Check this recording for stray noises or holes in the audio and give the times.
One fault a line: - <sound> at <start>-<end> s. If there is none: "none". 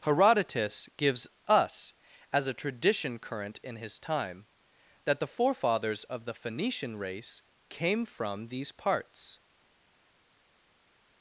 none